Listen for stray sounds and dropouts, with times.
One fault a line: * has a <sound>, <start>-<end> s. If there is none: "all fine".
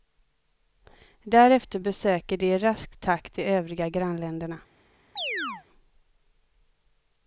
* has a chirp, 5.2-5.6 s